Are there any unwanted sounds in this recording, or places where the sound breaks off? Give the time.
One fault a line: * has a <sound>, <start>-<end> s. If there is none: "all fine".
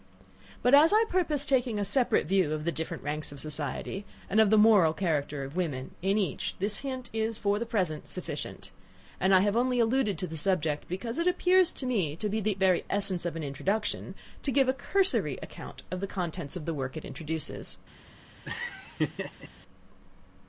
* has a laugh, 18.4-19.5 s